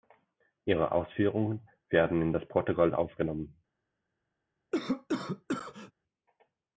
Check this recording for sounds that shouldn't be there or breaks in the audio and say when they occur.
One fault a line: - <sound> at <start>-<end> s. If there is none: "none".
- cough at 4.7-5.9 s